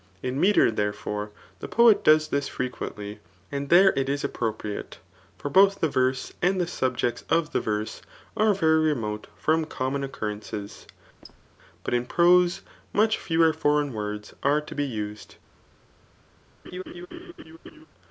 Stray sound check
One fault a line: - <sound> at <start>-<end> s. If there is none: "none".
- squeak at 11.2-11.5 s
- laugh at 16.6-17.9 s